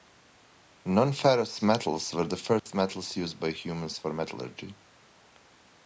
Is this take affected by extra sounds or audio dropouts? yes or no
yes